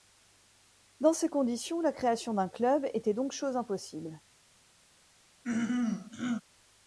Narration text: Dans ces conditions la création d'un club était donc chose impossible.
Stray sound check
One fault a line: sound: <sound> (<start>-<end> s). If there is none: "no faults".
sound: throat clearing (5.4-6.4 s)